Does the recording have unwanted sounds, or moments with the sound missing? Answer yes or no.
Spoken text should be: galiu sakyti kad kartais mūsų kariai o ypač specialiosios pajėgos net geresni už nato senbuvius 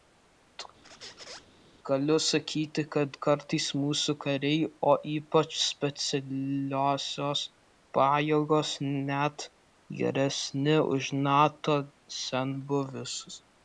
yes